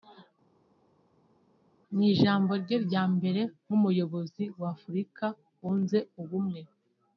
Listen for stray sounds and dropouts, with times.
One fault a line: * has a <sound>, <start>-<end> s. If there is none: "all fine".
all fine